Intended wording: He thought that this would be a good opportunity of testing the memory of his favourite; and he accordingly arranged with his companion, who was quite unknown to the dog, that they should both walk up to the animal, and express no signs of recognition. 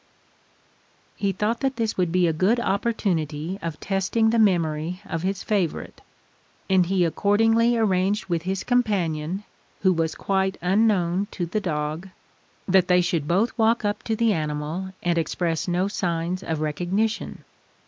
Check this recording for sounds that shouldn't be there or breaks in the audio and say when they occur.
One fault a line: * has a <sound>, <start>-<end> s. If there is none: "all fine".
all fine